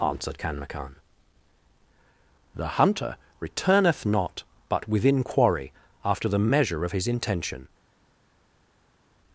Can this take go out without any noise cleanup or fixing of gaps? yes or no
yes